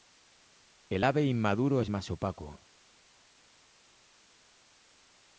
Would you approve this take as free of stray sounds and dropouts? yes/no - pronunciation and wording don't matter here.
yes